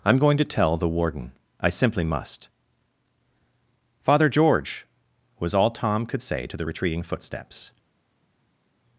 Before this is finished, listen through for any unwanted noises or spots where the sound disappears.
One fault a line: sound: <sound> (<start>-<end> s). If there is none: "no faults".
no faults